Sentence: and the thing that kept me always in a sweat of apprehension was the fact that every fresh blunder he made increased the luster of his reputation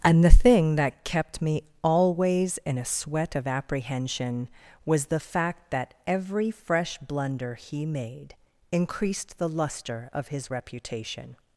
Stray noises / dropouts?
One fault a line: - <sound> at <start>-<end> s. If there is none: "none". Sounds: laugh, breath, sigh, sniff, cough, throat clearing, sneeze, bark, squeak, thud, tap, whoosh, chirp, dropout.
none